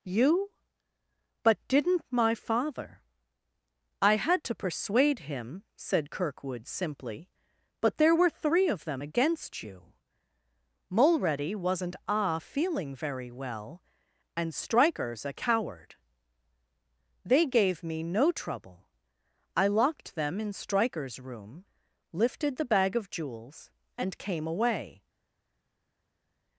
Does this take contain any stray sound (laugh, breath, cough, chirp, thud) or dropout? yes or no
no